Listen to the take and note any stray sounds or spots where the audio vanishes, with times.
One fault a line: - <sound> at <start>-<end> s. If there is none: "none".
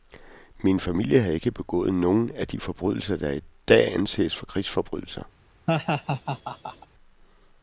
- laugh at 5.7-6.9 s